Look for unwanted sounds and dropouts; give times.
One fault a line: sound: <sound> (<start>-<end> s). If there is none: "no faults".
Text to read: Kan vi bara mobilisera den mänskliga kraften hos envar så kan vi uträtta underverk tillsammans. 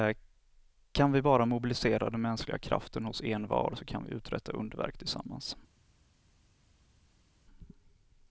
no faults